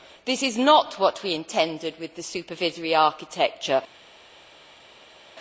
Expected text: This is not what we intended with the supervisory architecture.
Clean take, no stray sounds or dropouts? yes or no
yes